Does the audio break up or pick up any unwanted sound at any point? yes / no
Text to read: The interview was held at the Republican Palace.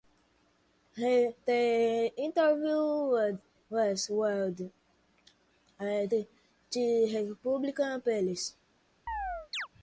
yes